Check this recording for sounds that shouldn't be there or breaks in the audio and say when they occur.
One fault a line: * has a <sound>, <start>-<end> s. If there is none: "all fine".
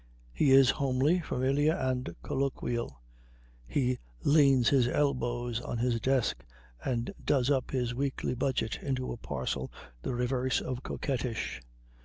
all fine